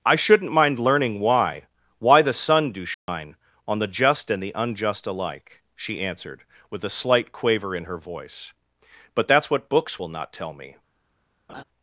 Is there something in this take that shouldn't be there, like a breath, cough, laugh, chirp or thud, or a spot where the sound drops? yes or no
yes